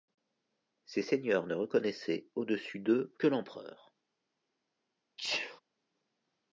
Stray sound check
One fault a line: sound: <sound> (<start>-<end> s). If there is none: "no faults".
sound: sneeze (5.2-5.6 s)